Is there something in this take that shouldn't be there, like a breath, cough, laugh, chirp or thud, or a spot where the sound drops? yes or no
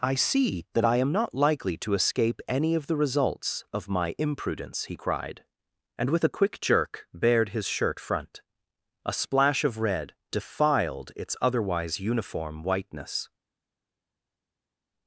no